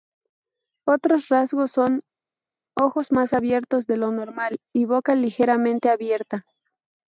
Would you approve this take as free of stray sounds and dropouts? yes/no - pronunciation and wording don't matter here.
yes